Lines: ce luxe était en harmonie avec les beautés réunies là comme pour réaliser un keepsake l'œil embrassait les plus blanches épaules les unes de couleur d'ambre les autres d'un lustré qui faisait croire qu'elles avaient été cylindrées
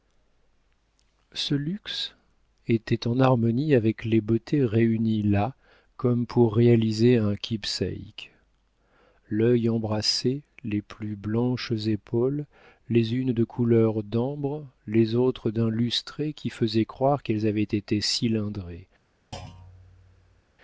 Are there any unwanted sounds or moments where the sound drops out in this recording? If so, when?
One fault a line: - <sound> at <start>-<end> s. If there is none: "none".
- thud at 19.3-20.4 s